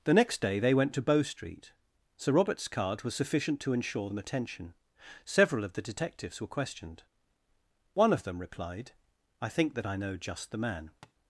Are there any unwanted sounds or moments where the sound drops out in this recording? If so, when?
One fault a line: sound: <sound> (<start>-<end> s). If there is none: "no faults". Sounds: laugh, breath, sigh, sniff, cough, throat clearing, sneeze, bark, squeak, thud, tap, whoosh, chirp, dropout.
sound: tap (11.0-11.1 s)